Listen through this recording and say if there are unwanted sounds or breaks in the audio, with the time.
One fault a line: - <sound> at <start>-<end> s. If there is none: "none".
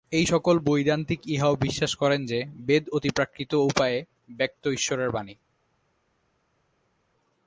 none